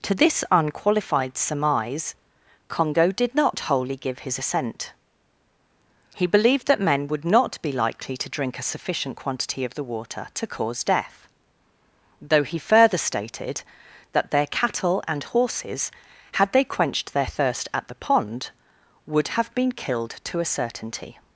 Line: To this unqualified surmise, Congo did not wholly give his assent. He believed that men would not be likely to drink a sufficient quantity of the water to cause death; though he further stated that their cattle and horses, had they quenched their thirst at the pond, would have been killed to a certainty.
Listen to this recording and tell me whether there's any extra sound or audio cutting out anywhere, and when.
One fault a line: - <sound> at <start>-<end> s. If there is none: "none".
none